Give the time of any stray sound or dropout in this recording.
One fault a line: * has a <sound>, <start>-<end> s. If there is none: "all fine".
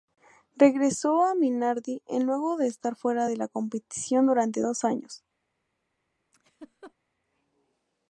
* has a laugh, 6.3-6.9 s